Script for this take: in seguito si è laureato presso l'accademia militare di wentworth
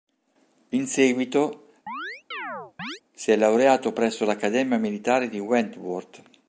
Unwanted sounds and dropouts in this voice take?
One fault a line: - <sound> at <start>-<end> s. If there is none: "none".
- chirp at 1.9-3.0 s